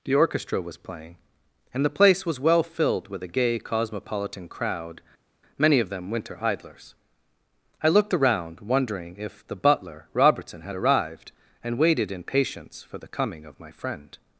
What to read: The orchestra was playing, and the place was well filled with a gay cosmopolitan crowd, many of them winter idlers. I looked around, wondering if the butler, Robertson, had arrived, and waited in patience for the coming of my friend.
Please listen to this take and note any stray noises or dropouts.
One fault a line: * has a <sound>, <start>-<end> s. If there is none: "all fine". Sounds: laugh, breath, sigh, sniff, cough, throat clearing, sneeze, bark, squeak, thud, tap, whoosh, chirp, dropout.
all fine